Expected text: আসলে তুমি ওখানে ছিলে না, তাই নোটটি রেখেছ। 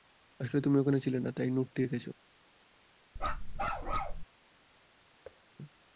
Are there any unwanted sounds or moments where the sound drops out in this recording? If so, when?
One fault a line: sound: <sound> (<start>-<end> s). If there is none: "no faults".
sound: bark (3.2-4.2 s)
sound: thud (5.2-5.4 s)